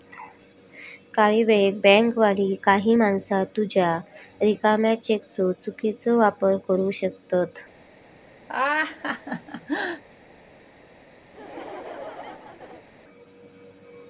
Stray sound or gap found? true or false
true